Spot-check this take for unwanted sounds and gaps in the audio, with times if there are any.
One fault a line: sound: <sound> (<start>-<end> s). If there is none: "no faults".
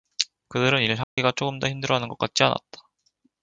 sound: dropout (1.0-1.2 s)